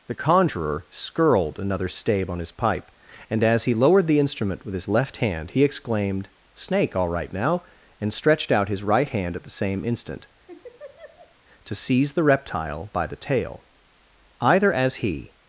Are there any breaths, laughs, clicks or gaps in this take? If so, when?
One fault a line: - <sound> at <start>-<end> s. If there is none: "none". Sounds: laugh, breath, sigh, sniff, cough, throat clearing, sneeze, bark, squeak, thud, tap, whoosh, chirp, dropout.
- laugh at 10.5-11.4 s